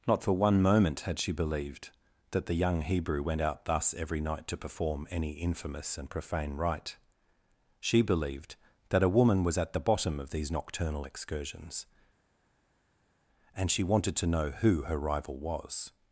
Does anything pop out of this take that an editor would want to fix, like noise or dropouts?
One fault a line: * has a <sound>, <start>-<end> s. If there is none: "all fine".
all fine